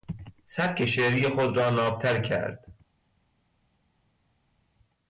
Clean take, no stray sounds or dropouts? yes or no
yes